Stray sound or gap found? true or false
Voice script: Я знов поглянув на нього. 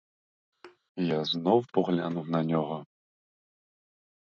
true